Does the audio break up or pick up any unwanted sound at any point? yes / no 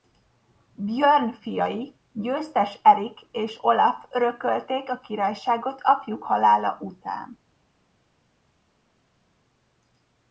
no